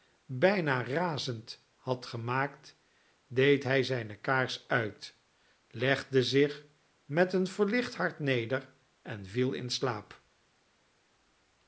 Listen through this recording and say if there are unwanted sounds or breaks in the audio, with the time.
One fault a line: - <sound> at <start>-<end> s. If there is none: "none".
none